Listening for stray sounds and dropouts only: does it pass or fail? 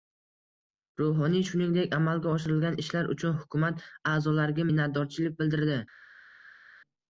pass